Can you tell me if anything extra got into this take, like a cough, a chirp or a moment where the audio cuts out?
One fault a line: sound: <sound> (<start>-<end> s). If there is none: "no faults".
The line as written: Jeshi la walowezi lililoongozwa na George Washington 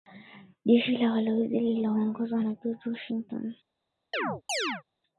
sound: chirp (4.1-4.8 s)